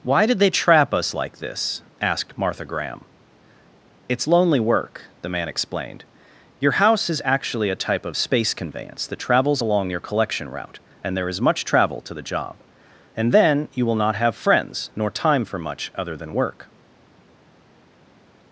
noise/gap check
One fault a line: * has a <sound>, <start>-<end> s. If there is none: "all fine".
all fine